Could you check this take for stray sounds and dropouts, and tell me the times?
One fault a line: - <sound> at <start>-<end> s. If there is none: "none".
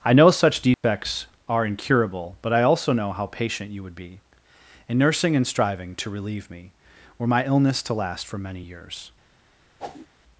- dropout at 0.7-0.8 s
- whoosh at 9.8-10.1 s